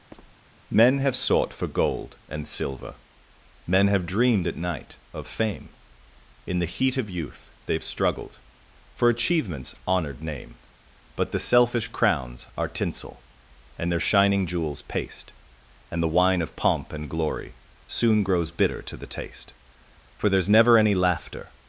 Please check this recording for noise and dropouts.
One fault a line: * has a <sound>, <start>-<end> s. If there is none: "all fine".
* has a squeak, 0.1-0.3 s